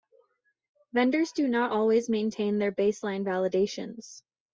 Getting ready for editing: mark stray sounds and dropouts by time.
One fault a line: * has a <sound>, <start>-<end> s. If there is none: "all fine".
all fine